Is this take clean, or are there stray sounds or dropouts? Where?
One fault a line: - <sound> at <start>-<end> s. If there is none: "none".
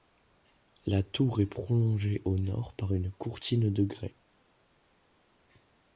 none